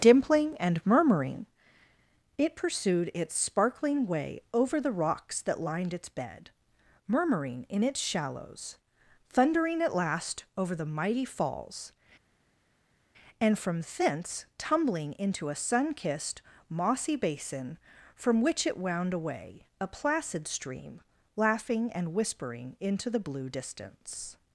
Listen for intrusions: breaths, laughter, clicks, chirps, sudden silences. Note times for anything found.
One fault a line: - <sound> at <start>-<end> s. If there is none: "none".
none